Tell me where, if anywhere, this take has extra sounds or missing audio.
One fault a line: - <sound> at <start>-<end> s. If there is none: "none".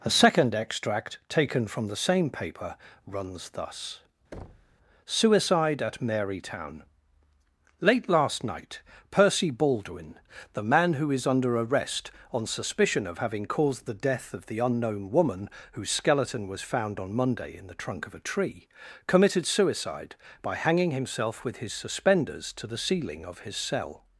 - thud at 4.3-4.8 s